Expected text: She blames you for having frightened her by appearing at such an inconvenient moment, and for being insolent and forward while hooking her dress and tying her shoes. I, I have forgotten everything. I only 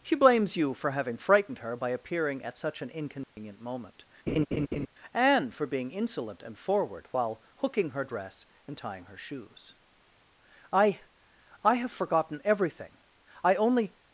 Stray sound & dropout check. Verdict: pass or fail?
fail